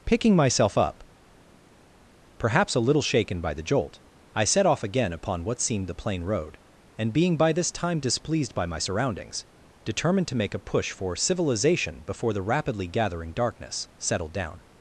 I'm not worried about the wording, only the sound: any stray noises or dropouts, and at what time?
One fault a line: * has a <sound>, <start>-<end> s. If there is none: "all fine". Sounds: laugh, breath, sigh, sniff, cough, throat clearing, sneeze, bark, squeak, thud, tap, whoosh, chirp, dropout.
all fine